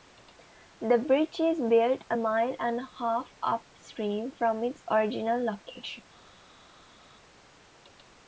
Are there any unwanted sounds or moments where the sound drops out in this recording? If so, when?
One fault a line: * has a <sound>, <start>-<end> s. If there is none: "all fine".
all fine